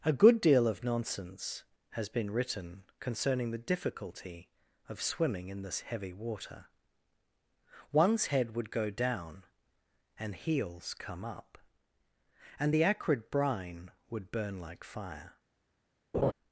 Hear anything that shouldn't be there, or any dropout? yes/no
yes